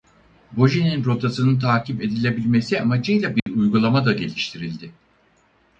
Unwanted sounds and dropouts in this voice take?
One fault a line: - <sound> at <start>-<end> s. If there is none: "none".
- dropout at 3.4-3.5 s